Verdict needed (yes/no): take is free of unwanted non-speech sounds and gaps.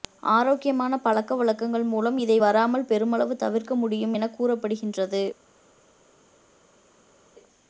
yes